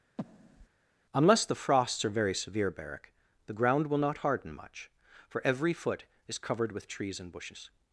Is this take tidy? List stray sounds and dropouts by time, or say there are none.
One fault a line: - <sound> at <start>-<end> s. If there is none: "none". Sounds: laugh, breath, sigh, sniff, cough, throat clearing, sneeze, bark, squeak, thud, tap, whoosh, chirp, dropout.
- breath at 0.2-0.7 s